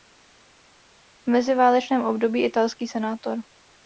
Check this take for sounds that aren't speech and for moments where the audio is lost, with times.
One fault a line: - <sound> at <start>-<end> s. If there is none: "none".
none